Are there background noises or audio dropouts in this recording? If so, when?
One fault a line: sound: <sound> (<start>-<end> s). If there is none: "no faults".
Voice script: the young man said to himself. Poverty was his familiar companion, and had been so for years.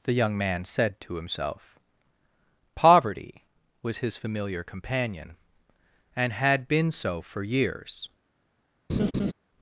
sound: laugh (8.9-9.3 s)